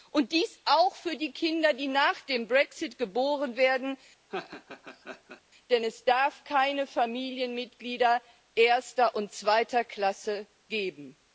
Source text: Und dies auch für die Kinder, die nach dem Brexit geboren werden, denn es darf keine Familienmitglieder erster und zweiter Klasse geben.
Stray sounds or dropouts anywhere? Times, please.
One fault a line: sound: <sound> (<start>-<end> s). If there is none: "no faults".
sound: laugh (4.3-5.4 s)